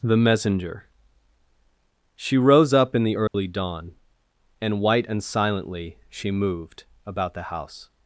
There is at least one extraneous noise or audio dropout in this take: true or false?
true